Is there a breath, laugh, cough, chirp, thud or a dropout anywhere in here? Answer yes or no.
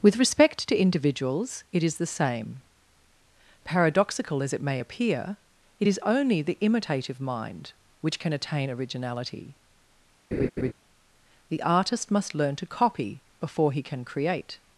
yes